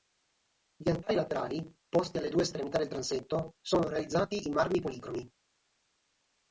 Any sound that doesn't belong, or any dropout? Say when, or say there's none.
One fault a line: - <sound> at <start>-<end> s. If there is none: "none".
none